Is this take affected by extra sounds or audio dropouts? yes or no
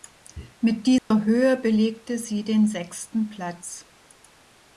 yes